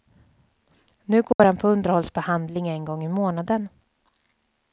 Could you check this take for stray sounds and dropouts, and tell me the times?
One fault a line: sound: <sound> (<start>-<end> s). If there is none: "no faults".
sound: dropout (1.3-1.4 s)